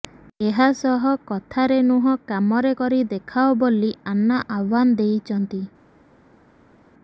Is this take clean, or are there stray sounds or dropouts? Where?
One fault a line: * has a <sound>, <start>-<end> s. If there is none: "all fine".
all fine